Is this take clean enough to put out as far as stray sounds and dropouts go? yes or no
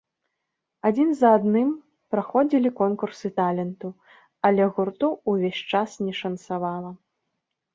yes